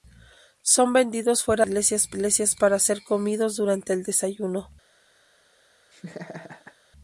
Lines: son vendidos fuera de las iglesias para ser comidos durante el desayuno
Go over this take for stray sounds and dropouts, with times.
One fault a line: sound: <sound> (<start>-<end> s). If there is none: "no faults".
sound: laugh (5.9-6.8 s)